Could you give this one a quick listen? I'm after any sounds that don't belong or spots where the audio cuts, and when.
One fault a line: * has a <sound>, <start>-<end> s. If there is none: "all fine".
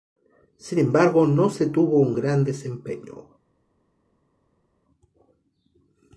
all fine